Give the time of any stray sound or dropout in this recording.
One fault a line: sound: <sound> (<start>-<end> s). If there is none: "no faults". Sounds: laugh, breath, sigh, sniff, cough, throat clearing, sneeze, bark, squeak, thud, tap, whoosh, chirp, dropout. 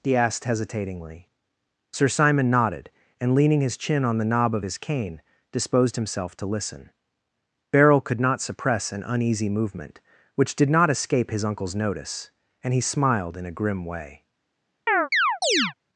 sound: chirp (14.9-15.7 s)